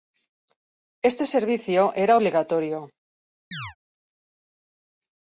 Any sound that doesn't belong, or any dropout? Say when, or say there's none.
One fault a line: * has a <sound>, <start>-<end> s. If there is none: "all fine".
* has a chirp, 3.5-3.8 s